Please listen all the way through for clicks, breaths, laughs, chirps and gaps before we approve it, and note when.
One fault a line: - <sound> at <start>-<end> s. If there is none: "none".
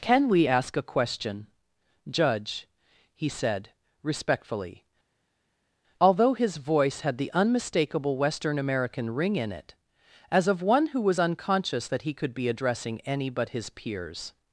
none